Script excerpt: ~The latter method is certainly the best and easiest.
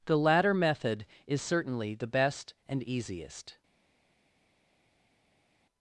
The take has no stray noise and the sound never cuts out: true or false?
true